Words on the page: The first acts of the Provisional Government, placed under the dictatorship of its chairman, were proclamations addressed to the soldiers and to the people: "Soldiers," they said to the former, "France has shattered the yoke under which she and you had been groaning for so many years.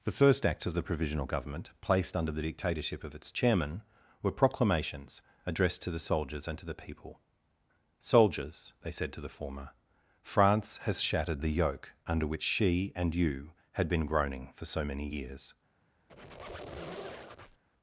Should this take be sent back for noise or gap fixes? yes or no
yes